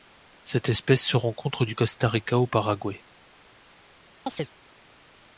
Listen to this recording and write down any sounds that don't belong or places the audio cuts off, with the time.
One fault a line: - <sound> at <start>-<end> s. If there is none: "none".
- chirp at 4.3-4.5 s